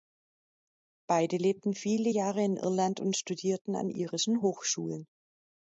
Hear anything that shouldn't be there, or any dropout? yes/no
no